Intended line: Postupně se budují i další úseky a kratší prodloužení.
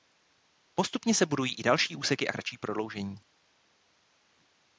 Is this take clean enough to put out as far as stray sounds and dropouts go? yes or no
yes